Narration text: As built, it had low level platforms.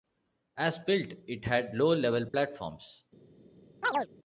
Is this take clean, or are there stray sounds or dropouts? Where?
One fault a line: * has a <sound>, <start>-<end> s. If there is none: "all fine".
* has a dropout, 2.3-2.3 s
* has a chirp, 3.8-4.1 s